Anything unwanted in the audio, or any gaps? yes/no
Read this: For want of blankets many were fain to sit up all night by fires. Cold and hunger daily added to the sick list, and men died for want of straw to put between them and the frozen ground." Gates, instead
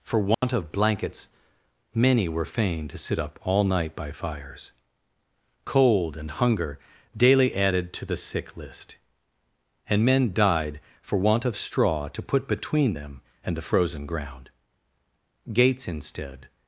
yes